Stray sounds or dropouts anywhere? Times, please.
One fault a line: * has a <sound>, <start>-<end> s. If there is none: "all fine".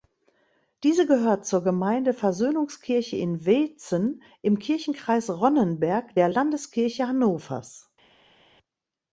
all fine